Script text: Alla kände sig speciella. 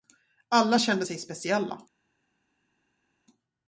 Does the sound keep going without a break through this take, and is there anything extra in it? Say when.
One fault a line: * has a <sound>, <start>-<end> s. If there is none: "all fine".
all fine